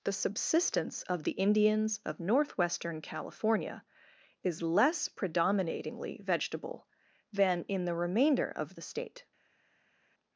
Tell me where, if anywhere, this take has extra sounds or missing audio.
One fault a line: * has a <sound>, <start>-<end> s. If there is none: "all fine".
all fine